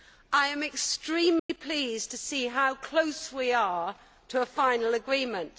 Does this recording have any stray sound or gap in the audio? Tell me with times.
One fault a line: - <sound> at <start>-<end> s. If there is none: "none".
- dropout at 1.4-1.5 s